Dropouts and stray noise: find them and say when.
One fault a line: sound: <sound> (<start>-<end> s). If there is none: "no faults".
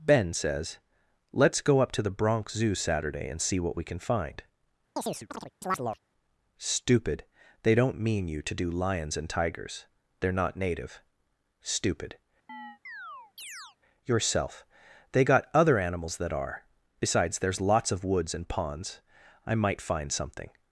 sound: chirp (5.0-6.0 s)
sound: chirp (12.5-13.8 s)